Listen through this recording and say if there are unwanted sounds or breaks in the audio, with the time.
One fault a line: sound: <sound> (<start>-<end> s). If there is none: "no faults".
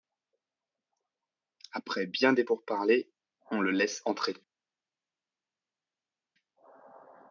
no faults